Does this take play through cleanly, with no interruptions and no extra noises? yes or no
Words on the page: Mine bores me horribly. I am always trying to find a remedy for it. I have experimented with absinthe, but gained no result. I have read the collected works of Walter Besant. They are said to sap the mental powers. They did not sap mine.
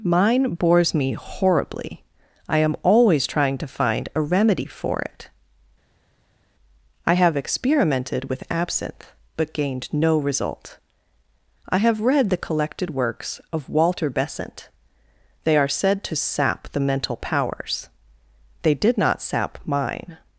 yes